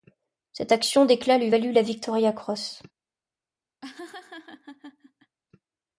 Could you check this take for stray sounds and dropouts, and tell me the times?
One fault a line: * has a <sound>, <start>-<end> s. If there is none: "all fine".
* has a laugh, 3.8-5.4 s